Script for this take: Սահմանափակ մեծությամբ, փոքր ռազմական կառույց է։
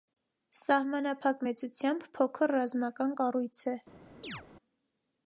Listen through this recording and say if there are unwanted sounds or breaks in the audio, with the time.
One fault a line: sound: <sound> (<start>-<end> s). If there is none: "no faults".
sound: chirp (4.2-4.4 s)